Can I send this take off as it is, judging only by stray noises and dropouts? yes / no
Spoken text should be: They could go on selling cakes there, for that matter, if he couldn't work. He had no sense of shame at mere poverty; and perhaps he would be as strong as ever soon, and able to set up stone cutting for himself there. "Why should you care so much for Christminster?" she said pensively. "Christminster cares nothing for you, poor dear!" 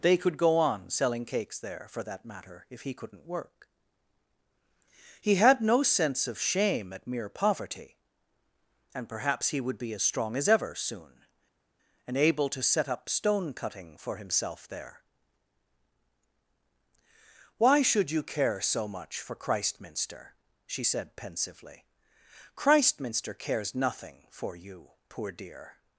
yes